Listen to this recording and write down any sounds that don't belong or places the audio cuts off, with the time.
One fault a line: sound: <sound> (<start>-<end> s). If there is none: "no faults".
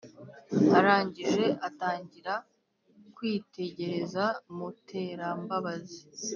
no faults